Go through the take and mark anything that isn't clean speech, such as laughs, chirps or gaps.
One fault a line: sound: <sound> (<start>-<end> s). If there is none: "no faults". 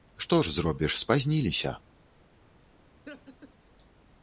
sound: laugh (3.0-3.5 s)